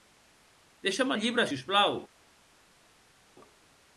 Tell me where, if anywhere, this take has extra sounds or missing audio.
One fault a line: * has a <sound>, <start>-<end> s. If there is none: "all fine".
all fine